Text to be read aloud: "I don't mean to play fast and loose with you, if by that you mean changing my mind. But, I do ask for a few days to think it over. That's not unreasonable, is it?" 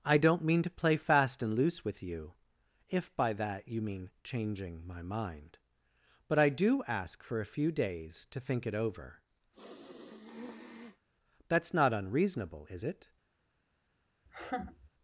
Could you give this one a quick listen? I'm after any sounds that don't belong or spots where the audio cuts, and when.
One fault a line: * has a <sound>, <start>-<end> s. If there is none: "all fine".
* has a sniff, 9.5-11.1 s
* has a laugh, 14.3-14.9 s